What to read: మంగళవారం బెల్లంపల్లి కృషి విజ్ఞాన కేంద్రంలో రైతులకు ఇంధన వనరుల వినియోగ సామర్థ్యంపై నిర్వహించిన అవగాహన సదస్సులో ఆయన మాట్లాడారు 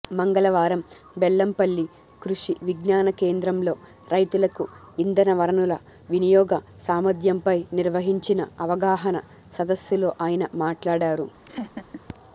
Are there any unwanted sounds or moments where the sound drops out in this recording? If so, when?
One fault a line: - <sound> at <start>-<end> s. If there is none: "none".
- laugh at 11.5-12.0 s